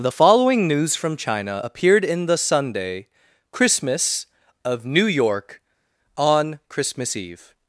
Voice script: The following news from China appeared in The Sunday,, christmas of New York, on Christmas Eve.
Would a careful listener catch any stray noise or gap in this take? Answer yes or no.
no